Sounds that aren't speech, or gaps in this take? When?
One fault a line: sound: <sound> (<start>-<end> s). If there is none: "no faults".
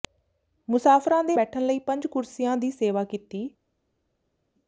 no faults